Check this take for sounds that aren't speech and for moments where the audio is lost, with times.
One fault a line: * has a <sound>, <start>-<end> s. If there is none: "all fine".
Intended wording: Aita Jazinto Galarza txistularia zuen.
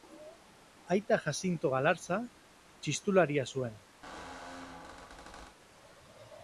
* has a squeak, 4.0-5.6 s